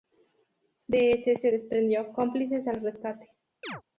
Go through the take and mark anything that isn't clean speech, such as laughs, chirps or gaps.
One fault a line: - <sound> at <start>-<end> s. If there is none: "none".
- chirp at 3.6-3.8 s